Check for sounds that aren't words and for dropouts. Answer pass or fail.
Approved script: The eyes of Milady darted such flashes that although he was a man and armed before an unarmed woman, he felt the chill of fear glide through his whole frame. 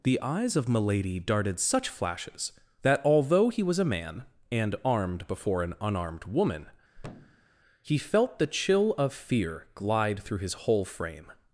fail